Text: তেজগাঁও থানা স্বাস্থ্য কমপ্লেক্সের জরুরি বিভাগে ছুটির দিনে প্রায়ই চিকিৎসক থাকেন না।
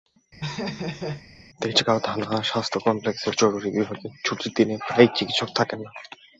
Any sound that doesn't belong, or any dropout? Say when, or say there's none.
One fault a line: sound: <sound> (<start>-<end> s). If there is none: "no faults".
sound: laugh (0.4-1.3 s)